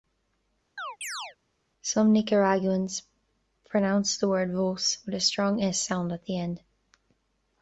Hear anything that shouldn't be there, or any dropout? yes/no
yes